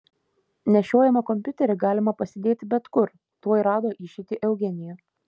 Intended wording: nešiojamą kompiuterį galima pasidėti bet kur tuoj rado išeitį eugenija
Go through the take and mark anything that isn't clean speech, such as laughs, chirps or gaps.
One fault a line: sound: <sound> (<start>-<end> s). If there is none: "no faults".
no faults